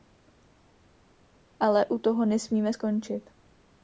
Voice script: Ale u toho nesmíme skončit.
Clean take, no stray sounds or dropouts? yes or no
yes